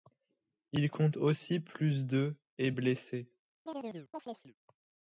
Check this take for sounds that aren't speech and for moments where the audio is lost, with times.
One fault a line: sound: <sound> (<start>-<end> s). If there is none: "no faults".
sound: chirp (3.7-4.5 s)